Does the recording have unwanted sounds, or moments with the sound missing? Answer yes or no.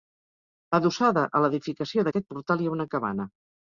no